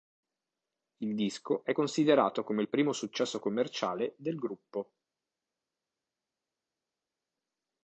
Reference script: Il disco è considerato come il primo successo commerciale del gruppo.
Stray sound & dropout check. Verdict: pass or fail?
pass